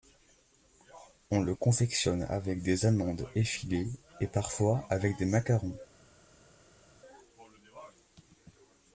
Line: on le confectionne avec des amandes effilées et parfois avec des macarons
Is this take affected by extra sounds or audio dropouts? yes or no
no